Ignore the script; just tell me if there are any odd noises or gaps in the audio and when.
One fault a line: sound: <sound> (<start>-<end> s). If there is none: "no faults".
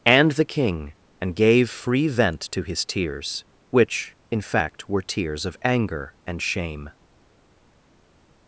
no faults